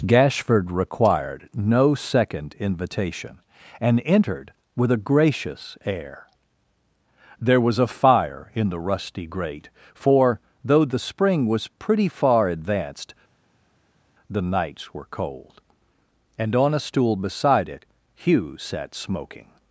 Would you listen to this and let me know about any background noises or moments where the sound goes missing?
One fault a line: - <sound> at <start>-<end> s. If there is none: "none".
none